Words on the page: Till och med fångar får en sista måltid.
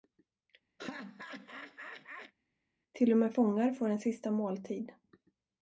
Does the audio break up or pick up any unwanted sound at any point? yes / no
yes